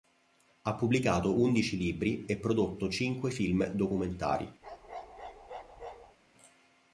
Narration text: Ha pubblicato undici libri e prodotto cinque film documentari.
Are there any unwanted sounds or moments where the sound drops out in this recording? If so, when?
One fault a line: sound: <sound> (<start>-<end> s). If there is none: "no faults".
sound: bark (4.6-6.2 s)